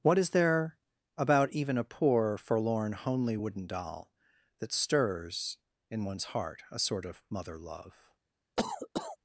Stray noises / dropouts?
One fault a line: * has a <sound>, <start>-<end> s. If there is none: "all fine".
* has a cough, 8.6-9.2 s